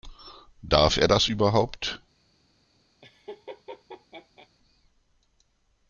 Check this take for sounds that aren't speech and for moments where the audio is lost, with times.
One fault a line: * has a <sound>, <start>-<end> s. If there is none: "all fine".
* has a laugh, 3.0-4.5 s